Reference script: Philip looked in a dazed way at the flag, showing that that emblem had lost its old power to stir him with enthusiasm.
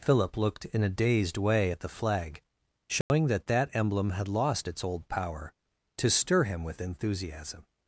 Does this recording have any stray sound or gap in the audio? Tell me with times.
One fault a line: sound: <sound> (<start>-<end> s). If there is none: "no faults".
sound: dropout (3.0-3.1 s)